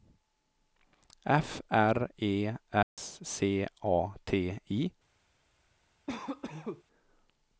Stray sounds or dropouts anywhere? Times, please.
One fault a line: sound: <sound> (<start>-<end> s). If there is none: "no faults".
sound: dropout (2.8-3.0 s)
sound: cough (6.1-6.8 s)